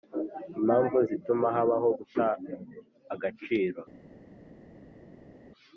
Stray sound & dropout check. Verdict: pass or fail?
pass